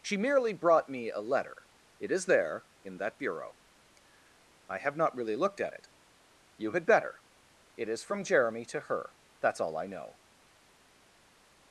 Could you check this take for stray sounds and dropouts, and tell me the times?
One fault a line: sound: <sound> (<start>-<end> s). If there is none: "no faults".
no faults